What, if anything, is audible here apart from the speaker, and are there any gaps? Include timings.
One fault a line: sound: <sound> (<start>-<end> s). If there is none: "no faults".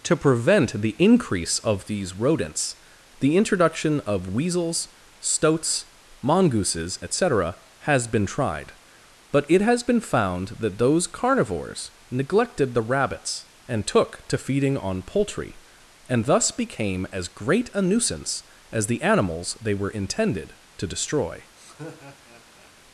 sound: laugh (21.6-22.7 s)